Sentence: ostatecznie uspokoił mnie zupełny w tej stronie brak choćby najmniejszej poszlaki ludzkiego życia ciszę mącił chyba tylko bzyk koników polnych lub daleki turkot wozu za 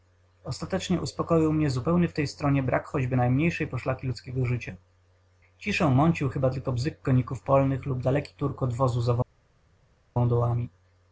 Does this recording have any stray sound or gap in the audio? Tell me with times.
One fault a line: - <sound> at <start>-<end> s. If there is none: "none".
none